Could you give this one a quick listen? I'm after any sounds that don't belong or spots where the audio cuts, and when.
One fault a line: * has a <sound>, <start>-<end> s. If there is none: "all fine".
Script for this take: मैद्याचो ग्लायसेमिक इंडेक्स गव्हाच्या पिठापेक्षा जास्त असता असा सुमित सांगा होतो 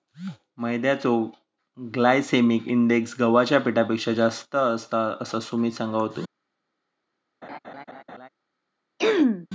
* has a laugh, 7.4-8.3 s
* has a throat clearing, 9.0-9.5 s